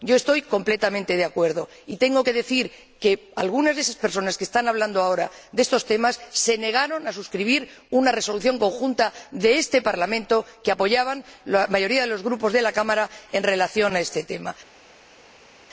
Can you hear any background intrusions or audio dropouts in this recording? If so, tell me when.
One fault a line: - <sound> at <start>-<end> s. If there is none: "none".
none